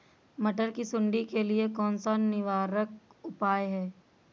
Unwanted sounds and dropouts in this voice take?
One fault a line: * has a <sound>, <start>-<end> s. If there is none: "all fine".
all fine